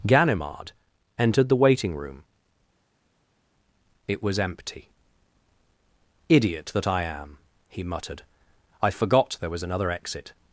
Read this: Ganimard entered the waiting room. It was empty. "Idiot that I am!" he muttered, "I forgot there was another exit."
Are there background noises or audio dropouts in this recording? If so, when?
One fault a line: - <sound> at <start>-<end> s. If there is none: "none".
none